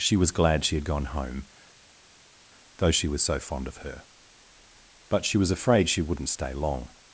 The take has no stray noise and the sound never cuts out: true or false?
true